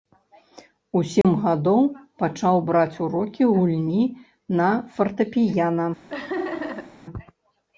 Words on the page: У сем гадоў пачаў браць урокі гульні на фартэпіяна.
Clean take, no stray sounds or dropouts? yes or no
no